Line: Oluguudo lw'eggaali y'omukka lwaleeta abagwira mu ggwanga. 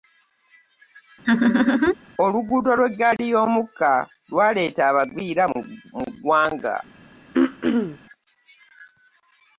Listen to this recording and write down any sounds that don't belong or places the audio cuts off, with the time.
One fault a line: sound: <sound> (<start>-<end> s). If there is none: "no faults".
sound: laugh (1.2-1.9 s)
sound: throat clearing (7.3-8.0 s)